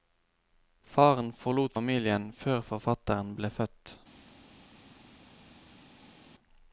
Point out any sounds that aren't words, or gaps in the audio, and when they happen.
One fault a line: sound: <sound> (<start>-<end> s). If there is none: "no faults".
no faults